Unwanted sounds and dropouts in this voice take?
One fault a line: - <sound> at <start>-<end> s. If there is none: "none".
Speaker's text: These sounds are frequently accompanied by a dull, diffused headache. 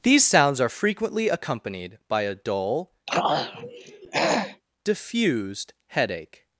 - throat clearing at 3.1-4.6 s